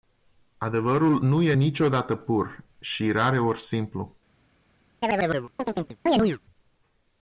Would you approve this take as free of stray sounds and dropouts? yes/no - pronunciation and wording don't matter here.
no